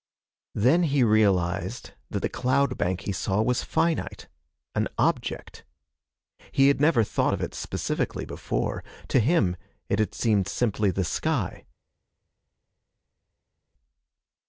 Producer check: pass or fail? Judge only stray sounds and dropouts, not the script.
pass